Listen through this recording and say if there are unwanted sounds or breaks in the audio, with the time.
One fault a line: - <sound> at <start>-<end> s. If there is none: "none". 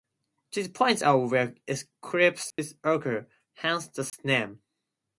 - dropout at 2.5-2.6 s
- dropout at 4.1-4.1 s